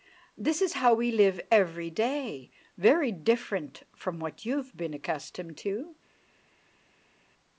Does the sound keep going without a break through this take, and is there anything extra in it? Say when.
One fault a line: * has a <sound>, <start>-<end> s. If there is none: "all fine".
all fine